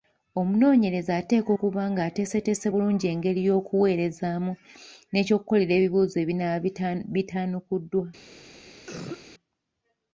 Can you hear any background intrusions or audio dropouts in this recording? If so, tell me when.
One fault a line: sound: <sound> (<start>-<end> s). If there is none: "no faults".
sound: cough (8.9-9.2 s)